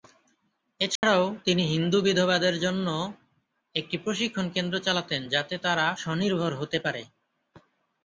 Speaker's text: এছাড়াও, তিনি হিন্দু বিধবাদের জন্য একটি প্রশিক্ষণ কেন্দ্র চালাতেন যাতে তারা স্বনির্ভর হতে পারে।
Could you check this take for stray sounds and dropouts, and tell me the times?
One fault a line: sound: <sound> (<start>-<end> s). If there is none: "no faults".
sound: dropout (1.0-1.0 s)